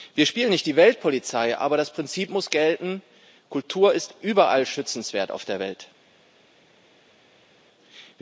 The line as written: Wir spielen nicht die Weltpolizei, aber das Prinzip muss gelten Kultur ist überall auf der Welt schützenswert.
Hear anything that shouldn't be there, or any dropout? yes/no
no